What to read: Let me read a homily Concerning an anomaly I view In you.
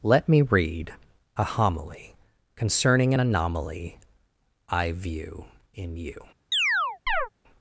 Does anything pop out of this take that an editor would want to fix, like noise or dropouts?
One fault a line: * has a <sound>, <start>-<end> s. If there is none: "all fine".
* has a chirp, 6.5-7.3 s